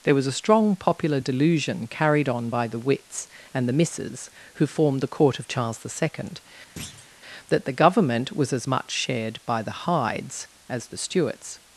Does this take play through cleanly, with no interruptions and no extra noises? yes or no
no